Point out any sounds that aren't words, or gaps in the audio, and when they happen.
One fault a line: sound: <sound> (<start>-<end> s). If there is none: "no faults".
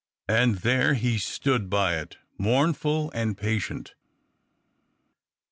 no faults